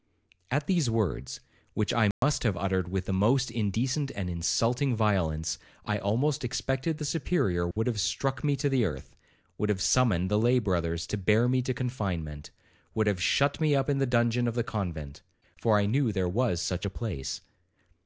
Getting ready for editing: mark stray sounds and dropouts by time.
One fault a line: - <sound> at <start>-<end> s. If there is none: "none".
- dropout at 2.1-2.2 s
- dropout at 7.7-7.8 s